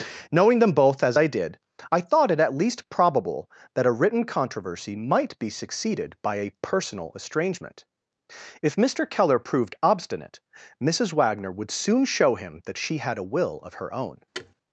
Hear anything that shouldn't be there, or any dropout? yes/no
yes